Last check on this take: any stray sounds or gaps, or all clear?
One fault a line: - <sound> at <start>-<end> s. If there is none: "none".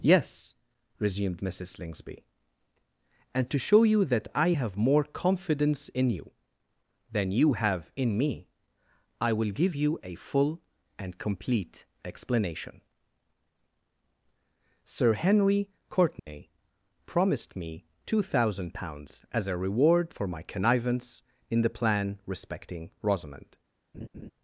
- dropout at 16.2-16.3 s
- laugh at 23.9-24.3 s